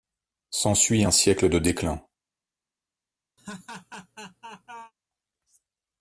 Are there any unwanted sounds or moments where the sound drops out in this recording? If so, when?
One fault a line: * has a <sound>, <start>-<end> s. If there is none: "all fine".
* has a laugh, 3.4-4.9 s